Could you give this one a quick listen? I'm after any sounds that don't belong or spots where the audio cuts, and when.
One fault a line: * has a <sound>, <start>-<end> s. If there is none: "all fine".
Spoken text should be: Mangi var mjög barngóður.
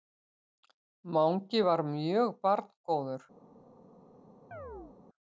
* has a chirp, 4.5-5.0 s